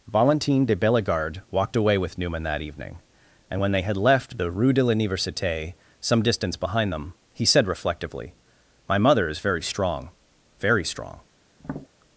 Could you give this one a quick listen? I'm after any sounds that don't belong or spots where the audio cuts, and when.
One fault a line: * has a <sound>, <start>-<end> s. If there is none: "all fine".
* has a tap, 11.6-11.9 s